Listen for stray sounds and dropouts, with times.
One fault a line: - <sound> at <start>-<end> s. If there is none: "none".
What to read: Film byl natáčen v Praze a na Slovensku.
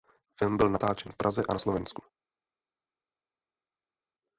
none